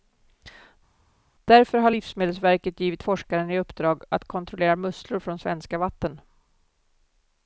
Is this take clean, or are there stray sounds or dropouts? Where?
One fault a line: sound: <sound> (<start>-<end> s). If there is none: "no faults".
no faults